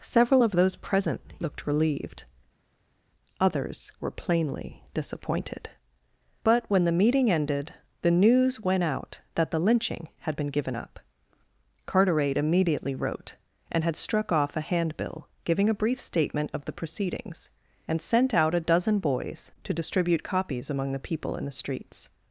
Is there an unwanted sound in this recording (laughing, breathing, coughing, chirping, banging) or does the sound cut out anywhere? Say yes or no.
no